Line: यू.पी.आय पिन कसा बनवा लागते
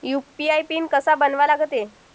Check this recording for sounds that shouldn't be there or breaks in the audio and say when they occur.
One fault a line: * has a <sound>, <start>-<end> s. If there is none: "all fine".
all fine